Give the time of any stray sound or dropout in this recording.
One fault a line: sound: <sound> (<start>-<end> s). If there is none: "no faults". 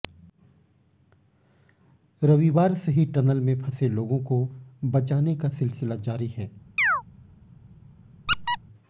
sound: chirp (6.8-7.0 s)
sound: squeak (8.3-8.6 s)